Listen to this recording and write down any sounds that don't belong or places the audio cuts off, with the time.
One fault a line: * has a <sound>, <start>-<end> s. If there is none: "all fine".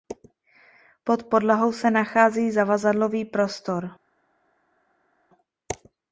all fine